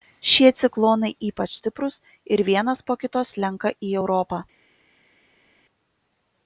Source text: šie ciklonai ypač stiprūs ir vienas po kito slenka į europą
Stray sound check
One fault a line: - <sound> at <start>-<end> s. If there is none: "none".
none